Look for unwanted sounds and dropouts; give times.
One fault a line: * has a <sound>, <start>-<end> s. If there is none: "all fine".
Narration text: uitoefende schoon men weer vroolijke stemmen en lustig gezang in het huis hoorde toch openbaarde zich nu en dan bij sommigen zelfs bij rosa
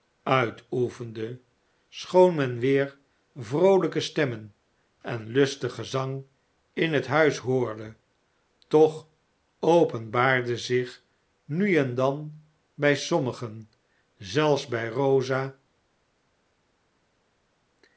all fine